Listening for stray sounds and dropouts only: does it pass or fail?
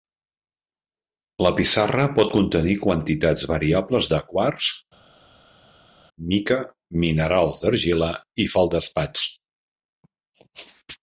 pass